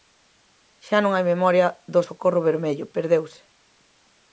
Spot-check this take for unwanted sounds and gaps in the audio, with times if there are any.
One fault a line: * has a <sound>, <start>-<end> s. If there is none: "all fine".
all fine